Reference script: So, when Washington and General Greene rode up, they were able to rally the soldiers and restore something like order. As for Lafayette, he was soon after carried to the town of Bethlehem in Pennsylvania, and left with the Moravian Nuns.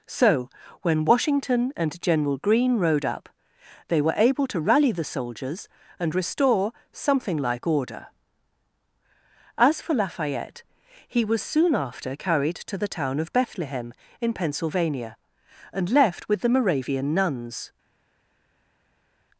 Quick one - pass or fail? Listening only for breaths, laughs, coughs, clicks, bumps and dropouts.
pass